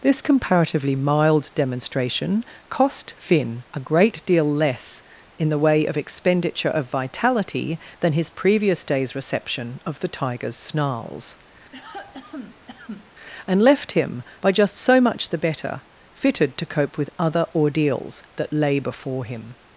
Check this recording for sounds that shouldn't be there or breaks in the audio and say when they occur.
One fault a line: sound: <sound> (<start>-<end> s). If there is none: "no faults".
sound: cough (11.7-13.1 s)